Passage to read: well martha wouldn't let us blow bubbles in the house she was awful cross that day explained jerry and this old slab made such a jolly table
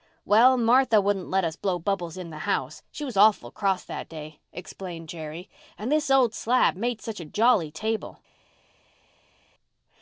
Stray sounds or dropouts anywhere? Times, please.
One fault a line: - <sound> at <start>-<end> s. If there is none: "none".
none